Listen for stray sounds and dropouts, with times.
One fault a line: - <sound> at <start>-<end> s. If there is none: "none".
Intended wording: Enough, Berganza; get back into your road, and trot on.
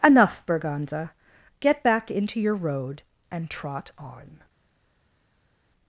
none